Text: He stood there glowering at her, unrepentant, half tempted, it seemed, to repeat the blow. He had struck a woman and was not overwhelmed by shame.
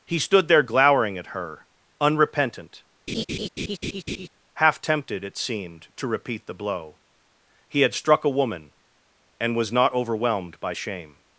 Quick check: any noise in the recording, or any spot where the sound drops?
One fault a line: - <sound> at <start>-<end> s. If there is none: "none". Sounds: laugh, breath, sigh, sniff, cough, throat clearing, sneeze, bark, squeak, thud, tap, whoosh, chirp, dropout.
- laugh at 3.1-4.3 s